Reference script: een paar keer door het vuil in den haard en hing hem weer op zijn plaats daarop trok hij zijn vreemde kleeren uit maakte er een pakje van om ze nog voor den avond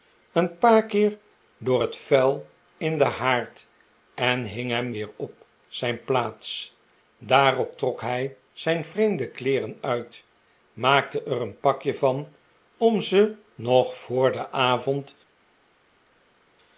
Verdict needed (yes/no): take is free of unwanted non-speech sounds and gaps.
yes